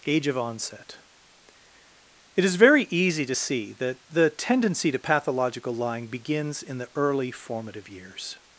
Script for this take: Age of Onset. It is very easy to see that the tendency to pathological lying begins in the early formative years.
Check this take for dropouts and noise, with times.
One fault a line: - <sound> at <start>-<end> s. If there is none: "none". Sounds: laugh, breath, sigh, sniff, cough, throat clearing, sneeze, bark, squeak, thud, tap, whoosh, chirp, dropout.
none